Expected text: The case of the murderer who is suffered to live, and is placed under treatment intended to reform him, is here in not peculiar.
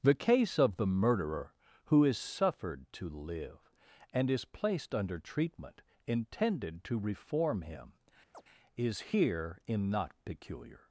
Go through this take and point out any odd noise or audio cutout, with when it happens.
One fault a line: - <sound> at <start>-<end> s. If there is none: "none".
- chirp at 8.3-8.4 s